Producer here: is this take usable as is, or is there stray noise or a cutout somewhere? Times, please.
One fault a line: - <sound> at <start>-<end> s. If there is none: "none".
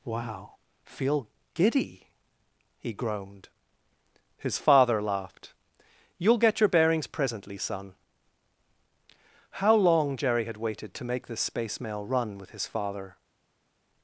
none